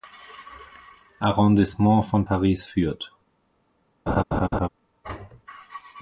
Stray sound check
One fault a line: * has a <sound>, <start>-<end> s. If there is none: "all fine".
* has a laugh, 4.1-4.7 s